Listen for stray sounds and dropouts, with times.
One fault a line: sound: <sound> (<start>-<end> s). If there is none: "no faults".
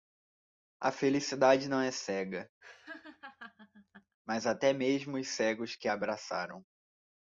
sound: laugh (2.6-4.2 s)